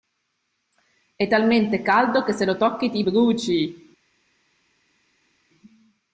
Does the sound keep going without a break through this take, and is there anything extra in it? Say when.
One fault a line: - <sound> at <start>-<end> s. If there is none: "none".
none